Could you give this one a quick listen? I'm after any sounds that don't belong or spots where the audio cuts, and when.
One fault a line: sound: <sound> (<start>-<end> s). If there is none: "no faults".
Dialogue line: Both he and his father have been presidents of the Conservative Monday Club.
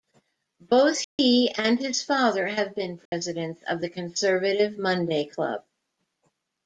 sound: dropout (1.0-1.2 s)
sound: dropout (3.1-3.1 s)